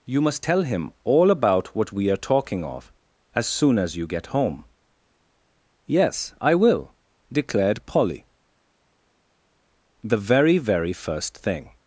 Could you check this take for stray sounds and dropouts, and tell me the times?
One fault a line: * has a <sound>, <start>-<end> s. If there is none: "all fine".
all fine